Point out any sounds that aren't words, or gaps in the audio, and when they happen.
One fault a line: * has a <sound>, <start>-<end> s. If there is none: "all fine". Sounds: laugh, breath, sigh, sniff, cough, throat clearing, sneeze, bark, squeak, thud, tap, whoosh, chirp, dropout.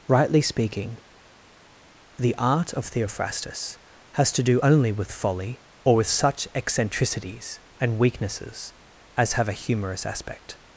all fine